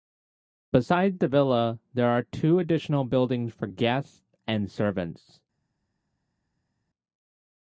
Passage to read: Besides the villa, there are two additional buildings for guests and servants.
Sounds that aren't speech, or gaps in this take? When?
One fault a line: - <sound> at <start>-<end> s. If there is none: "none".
none